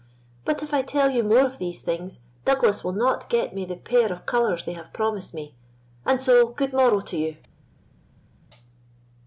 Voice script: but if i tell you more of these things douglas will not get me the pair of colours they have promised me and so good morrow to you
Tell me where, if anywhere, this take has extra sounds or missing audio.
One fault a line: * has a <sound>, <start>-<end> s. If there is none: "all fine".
all fine